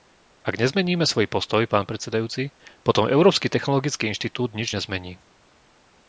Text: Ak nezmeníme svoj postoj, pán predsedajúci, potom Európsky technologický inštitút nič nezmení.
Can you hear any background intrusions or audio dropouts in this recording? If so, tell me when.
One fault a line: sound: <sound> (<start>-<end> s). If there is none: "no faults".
no faults